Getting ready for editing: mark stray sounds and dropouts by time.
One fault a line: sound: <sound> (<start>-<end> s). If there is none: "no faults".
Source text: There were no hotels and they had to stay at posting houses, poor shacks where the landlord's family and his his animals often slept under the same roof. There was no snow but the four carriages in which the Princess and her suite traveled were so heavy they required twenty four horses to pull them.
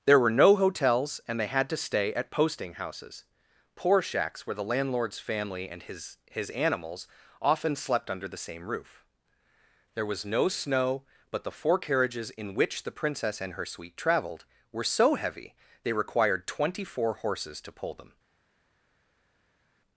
no faults